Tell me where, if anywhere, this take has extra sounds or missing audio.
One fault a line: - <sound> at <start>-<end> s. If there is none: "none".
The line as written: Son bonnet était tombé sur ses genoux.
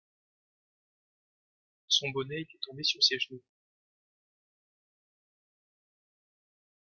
none